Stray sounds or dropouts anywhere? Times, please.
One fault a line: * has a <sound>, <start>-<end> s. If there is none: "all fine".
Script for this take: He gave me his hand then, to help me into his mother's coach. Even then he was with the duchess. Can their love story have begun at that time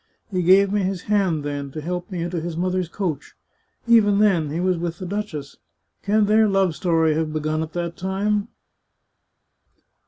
all fine